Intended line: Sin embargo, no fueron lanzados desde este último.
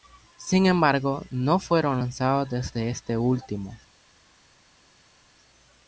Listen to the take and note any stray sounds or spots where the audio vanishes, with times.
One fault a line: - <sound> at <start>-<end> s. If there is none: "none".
none